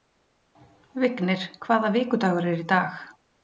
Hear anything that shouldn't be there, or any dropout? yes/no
no